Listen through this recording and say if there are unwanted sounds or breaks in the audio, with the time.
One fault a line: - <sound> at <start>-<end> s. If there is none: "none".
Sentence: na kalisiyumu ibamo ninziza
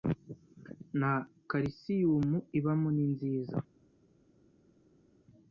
none